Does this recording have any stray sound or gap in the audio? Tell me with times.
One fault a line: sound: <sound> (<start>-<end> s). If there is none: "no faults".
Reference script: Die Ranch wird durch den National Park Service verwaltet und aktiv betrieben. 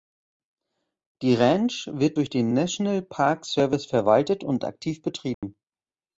sound: dropout (5.3-5.4 s)